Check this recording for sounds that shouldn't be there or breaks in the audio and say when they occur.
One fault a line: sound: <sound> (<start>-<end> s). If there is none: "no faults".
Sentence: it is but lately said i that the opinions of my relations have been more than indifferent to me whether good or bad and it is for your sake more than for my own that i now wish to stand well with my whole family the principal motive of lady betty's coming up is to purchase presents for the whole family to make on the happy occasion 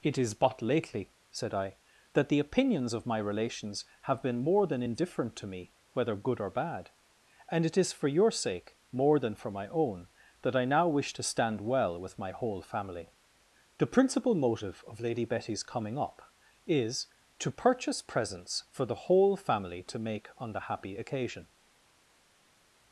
no faults